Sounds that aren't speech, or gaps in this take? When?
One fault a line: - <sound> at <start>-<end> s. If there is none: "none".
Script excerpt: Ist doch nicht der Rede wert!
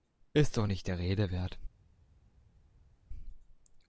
none